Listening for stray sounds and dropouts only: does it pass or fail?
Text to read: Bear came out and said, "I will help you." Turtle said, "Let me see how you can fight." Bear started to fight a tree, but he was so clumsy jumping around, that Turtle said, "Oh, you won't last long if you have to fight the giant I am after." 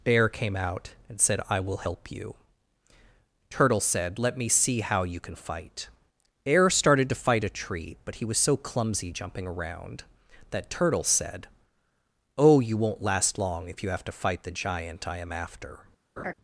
fail